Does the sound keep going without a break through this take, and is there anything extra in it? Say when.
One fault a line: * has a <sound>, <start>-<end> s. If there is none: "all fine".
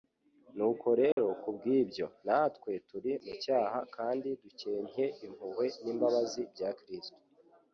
* has a dropout, 1.1-1.2 s